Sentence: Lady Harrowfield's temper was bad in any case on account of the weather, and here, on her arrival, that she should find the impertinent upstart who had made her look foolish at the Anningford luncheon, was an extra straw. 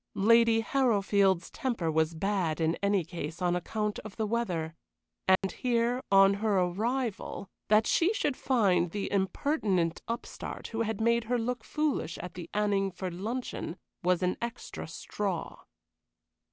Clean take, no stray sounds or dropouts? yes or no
no